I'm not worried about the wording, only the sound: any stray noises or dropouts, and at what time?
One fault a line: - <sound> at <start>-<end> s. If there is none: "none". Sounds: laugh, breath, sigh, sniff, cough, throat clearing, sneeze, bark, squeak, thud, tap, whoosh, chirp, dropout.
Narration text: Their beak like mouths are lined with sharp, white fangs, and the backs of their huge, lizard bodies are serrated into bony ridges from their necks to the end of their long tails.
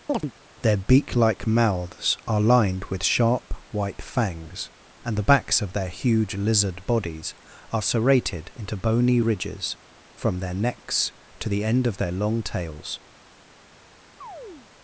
- chirp at 0.1-0.3 s
- chirp at 14.2-14.7 s